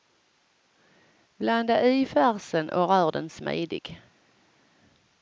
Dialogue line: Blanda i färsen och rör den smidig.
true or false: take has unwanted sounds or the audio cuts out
false